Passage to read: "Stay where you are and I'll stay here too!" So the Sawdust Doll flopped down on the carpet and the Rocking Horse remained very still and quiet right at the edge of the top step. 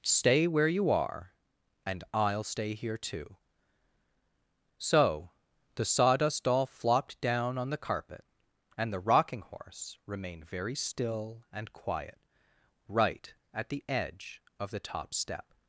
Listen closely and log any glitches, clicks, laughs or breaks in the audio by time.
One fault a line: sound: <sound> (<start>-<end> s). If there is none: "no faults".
no faults